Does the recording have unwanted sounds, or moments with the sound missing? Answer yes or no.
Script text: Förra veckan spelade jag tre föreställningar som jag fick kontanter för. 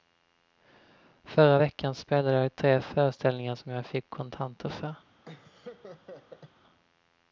yes